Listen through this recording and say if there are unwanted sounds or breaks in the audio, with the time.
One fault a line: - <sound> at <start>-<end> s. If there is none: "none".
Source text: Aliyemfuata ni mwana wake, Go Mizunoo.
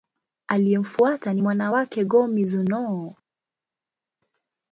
none